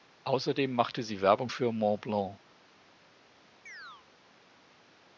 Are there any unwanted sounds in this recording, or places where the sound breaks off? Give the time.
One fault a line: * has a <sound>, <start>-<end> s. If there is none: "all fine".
* has a chirp, 3.7-4.1 s